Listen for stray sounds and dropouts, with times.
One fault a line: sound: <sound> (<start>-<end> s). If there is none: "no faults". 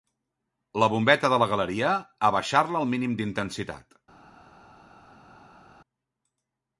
no faults